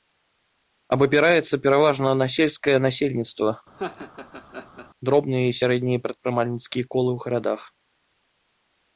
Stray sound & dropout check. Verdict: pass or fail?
fail